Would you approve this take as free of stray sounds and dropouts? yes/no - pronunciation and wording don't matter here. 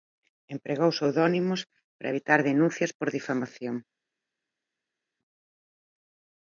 yes